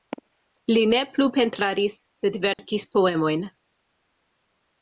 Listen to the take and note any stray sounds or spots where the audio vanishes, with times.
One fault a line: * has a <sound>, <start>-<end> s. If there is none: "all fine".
* has a dropout, 2.5-2.6 s